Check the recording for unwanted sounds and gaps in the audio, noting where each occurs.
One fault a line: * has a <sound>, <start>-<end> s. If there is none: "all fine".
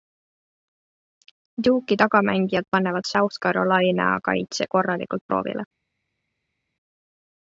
all fine